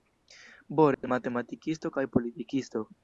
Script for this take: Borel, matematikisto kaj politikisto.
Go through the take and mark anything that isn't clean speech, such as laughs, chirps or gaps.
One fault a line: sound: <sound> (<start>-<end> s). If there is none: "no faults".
sound: dropout (0.9-1.0 s)